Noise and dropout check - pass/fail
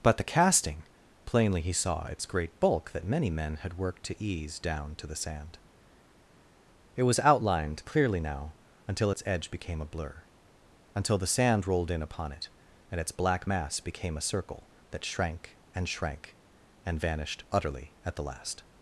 pass